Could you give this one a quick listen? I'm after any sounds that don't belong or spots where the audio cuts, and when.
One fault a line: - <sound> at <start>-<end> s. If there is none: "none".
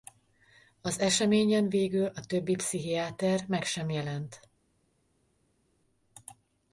none